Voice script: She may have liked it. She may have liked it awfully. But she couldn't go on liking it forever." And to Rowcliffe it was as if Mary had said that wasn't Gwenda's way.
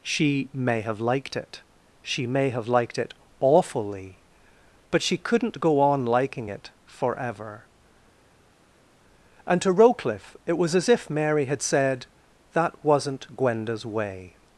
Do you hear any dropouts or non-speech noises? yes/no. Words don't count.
no